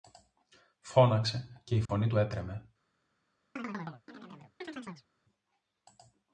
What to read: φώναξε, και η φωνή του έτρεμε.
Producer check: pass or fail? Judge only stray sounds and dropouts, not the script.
fail